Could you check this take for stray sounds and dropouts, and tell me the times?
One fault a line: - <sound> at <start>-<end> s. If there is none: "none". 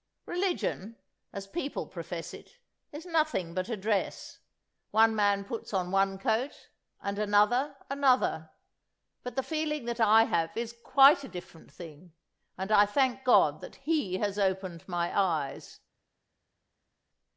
none